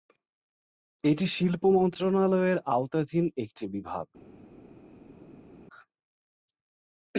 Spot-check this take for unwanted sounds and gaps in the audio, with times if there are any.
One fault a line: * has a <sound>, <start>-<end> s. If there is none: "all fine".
all fine